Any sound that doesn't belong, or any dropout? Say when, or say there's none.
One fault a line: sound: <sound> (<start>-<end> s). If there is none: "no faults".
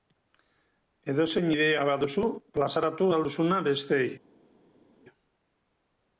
no faults